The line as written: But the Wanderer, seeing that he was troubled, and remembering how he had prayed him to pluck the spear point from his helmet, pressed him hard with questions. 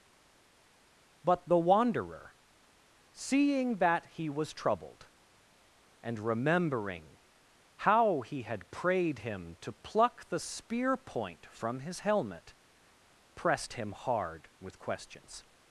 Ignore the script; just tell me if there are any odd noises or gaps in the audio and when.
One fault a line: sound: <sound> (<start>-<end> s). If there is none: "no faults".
no faults